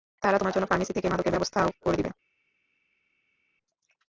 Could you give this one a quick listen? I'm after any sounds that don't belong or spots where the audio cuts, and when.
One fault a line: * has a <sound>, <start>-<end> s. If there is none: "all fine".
all fine